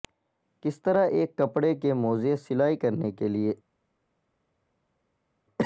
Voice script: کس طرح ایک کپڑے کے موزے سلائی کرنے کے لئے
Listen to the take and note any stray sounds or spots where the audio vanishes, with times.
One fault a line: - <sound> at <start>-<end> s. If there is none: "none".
none